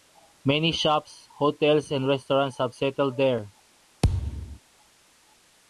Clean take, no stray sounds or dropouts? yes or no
no